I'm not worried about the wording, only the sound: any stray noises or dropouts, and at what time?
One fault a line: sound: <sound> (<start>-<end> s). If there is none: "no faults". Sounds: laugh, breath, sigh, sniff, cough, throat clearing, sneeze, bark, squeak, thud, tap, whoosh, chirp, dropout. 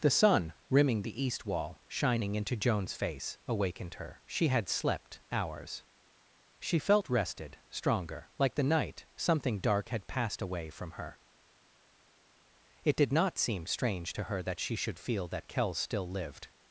no faults